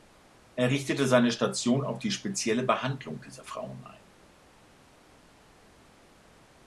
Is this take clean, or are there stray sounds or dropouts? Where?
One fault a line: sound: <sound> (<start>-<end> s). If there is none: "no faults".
no faults